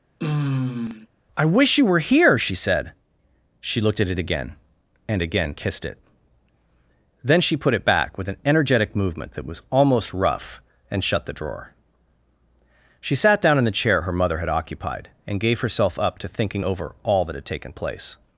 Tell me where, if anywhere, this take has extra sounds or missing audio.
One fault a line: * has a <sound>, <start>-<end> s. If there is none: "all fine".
* has a sigh, 0.2-1.1 s